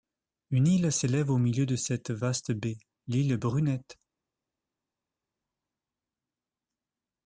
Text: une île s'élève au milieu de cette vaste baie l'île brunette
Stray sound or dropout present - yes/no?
no